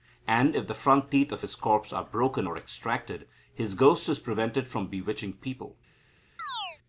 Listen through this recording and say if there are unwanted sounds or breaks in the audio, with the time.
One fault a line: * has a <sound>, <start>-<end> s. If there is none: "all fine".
* has a chirp, 6.4-6.8 s